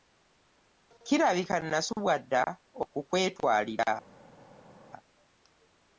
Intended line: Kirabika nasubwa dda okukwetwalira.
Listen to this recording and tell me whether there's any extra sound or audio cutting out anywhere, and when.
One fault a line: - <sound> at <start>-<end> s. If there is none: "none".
none